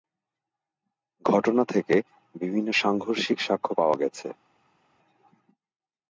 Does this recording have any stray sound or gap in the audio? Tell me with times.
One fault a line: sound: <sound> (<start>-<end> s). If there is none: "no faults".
no faults